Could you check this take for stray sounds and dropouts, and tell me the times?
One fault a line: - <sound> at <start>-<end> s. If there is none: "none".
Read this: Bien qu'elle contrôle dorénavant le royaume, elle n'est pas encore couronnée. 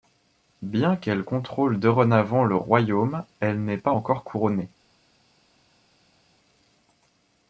none